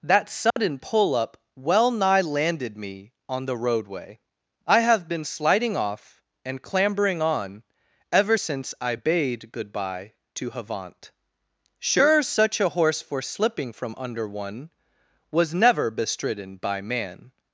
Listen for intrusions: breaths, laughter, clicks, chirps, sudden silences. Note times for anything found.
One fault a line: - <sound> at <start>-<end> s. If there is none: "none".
- dropout at 0.5-0.6 s